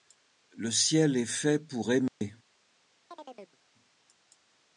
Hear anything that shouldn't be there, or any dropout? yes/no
yes